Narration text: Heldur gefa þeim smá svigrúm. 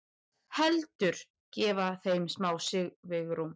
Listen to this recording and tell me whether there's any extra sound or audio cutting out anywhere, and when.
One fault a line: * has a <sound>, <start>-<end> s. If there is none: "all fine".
all fine